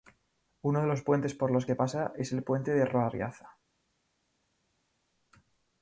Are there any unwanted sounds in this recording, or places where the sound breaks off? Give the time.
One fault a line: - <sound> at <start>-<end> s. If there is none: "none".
none